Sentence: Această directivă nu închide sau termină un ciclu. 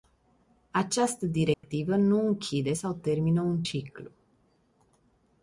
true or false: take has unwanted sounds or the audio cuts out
true